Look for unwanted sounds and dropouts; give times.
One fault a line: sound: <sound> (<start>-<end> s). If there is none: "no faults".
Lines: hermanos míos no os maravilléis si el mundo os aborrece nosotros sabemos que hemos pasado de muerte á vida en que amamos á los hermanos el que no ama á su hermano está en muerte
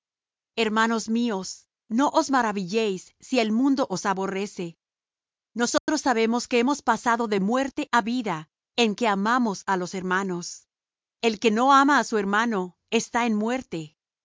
sound: dropout (5.8-5.9 s)